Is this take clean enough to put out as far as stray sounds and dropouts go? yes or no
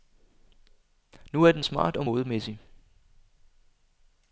yes